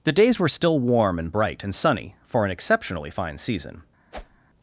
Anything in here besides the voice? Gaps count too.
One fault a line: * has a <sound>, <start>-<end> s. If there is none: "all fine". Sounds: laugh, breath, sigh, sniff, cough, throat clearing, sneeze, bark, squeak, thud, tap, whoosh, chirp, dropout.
* has a whoosh, 4.1-4.4 s